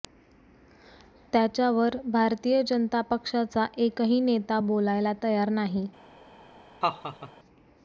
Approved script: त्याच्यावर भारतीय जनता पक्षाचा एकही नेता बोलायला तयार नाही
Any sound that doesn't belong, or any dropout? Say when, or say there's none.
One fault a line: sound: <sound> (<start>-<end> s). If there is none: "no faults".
sound: laugh (6.8-7.3 s)